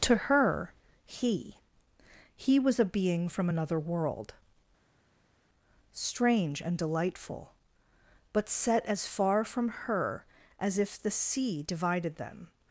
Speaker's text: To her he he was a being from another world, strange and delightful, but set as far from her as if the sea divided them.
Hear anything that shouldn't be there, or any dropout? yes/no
no